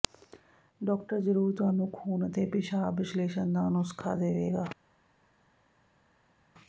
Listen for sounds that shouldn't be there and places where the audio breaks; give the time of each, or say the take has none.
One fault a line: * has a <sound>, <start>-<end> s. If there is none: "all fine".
all fine